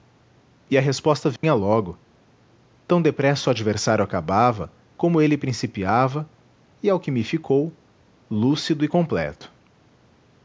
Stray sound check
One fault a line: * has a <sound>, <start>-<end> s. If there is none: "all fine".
* has a dropout, 1.4-1.4 s